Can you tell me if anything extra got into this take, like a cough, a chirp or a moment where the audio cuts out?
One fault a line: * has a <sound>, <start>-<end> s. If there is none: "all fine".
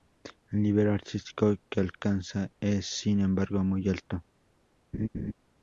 * has a laugh, 4.9-5.3 s